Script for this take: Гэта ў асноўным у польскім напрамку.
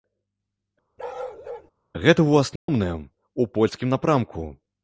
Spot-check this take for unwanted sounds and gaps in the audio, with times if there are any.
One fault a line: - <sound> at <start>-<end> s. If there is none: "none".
- bark at 1.0-1.7 s
- dropout at 2.6-2.7 s